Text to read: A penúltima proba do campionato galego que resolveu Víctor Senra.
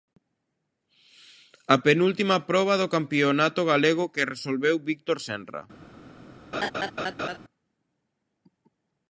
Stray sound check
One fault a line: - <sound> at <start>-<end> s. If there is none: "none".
- laugh at 6.5-7.4 s